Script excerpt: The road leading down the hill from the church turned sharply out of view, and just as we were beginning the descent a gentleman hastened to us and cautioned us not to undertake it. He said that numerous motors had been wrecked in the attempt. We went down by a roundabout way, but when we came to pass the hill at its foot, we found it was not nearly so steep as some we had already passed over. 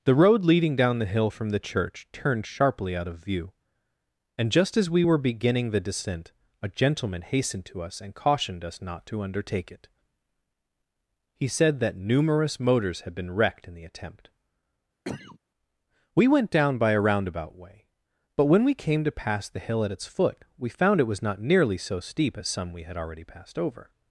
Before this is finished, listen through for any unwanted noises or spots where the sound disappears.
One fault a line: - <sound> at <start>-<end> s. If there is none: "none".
- cough at 15.0-15.4 s